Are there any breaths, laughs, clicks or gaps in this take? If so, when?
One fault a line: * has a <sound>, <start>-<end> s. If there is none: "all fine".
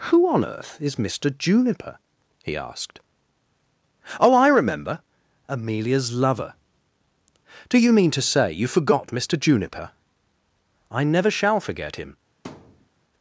* has a thud, 12.4-12.9 s